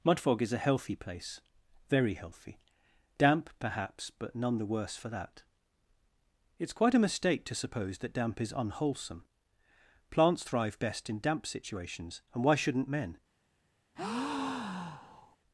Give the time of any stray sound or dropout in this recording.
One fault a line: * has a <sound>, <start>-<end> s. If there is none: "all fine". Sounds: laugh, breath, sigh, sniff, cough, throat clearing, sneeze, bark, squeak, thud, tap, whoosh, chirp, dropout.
* has a breath, 14.0-15.4 s